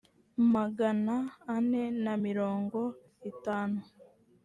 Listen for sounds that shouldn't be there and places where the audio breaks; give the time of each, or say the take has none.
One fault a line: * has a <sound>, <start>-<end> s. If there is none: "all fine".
all fine